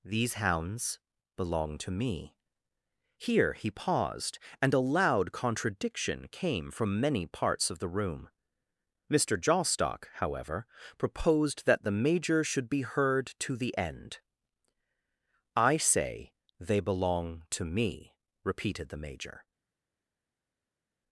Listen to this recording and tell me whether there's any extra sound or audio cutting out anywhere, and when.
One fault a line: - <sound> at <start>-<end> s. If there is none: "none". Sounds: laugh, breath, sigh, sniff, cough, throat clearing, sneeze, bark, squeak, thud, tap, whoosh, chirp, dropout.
none